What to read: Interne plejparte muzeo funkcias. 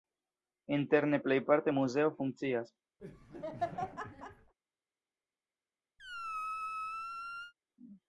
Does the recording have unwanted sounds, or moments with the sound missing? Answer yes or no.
yes